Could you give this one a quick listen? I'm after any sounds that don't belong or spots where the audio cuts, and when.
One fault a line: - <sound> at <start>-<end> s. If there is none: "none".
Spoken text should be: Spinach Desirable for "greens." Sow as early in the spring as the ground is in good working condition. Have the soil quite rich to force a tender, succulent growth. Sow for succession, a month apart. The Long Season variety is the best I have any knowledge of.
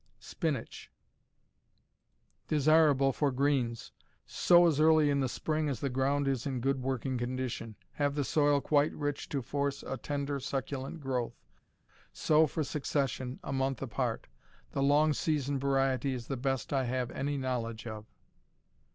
none